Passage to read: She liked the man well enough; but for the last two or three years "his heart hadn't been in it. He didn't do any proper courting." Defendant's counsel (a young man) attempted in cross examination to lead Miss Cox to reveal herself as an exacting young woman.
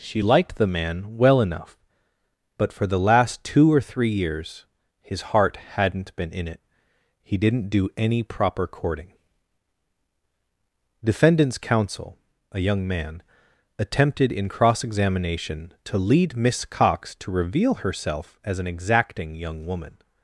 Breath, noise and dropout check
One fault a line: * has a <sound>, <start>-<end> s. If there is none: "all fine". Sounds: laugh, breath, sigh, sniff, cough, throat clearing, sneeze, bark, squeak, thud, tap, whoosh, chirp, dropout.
all fine